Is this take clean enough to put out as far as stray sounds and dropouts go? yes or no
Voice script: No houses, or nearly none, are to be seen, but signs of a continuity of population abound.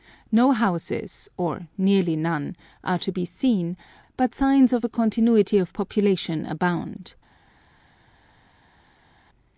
yes